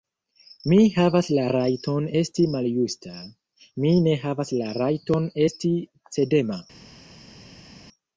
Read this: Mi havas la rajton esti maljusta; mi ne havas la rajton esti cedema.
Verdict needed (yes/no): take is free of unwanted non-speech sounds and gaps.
yes